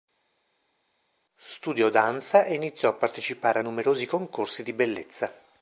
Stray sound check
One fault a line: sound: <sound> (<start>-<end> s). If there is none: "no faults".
no faults